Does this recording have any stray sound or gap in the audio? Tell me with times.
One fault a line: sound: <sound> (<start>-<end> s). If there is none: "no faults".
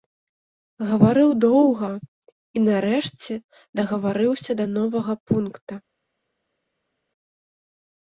no faults